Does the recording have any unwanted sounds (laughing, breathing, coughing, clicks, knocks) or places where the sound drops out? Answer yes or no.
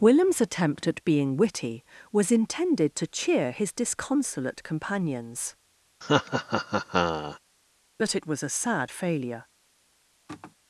yes